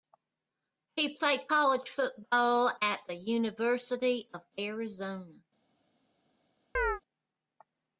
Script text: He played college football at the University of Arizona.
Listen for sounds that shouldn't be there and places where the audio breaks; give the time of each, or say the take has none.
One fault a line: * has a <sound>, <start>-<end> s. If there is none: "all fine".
* has a chirp, 6.7-7.0 s